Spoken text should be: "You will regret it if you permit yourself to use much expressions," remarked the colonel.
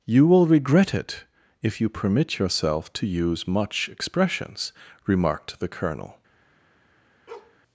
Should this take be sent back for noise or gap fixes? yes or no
yes